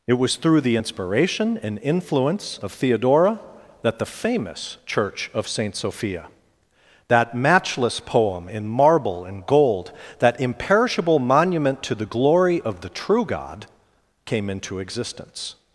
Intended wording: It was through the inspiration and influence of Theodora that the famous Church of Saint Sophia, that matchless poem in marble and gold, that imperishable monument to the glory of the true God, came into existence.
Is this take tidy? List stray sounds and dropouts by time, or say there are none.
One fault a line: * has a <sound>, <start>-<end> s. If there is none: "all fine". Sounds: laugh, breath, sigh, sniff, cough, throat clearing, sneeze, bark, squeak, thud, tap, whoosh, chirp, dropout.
all fine